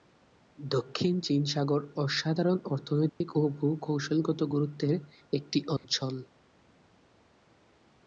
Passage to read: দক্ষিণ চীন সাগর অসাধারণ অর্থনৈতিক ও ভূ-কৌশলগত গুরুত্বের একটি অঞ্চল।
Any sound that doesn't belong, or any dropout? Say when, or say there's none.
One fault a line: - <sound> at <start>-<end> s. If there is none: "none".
- dropout at 3.1-3.2 s
- dropout at 5.8-5.8 s